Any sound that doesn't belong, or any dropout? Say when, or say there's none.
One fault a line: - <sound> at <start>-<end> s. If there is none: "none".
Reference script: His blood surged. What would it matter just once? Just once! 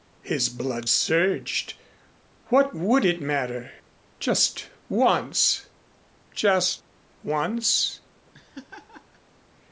- laugh at 8.3-9.2 s